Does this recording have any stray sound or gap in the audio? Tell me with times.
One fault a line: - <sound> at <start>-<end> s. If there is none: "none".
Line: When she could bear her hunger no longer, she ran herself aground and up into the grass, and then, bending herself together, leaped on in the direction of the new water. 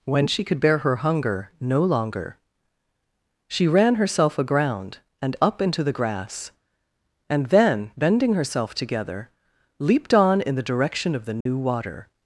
- dropout at 11.4-11.5 s